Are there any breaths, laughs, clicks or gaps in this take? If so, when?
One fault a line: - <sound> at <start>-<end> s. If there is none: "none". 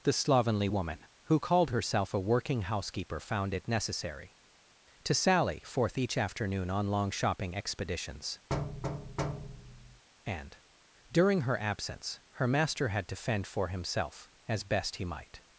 - thud at 8.5-10.0 s